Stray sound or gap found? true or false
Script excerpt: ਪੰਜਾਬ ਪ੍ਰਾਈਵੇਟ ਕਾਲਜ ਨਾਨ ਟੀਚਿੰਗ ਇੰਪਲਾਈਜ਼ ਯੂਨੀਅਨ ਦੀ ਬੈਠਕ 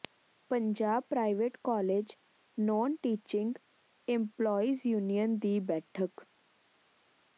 false